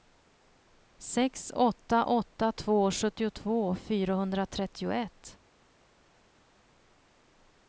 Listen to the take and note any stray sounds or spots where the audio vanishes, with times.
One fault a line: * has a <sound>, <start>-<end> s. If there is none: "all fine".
all fine